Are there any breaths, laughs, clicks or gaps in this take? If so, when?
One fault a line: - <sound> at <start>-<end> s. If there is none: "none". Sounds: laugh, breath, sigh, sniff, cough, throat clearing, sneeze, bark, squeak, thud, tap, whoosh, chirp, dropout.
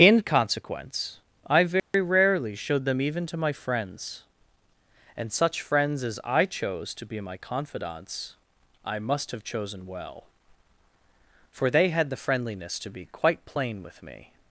- dropout at 1.8-1.9 s